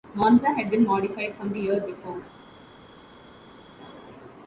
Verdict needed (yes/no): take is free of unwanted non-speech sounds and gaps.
yes